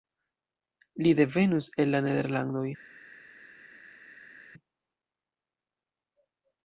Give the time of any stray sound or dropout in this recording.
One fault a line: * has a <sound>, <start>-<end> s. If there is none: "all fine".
all fine